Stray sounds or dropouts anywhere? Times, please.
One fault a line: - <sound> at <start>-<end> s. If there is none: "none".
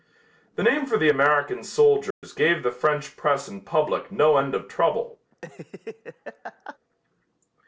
- dropout at 2.1-2.2 s
- laugh at 5.3-6.8 s